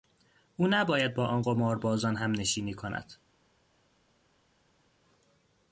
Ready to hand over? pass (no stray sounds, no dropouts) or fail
pass